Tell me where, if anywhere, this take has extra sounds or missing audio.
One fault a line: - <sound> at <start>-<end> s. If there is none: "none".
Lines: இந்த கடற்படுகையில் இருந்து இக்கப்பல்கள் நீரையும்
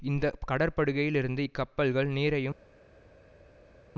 none